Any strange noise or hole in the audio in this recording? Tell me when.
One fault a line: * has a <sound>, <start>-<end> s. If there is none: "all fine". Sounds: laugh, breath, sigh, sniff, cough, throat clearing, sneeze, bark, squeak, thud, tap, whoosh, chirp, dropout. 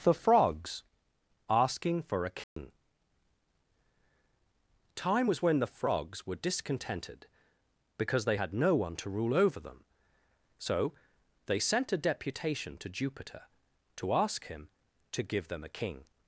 * has a dropout, 2.4-2.6 s